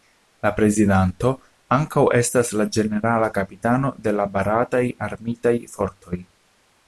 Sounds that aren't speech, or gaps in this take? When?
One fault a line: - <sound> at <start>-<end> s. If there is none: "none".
none